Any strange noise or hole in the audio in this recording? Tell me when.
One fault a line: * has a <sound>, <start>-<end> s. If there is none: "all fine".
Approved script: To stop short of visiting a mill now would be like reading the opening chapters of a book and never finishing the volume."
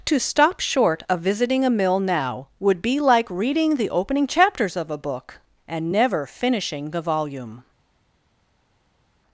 all fine